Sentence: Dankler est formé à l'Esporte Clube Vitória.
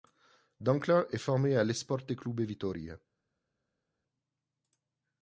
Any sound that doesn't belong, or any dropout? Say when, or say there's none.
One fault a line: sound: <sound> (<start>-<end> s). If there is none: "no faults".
no faults